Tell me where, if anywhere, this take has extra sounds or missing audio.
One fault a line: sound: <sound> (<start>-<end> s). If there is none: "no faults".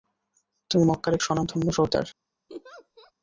sound: laugh (2.5-3.1 s)